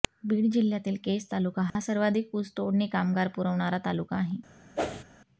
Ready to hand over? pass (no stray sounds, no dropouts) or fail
fail